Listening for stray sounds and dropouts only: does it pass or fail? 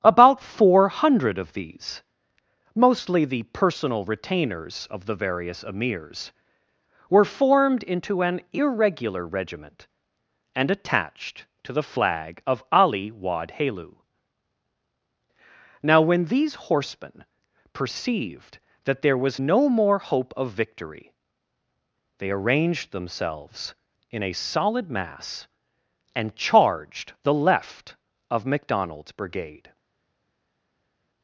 pass